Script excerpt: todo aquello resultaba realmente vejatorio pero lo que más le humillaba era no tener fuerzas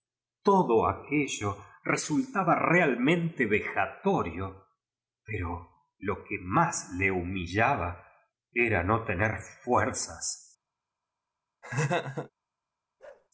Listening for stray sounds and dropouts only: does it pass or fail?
fail